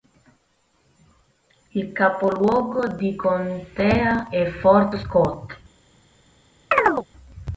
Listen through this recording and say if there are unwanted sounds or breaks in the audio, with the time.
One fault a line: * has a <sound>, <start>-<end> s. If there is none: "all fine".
* has a chirp, 6.7-7.1 s